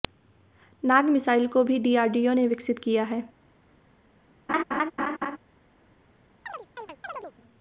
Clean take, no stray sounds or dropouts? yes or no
no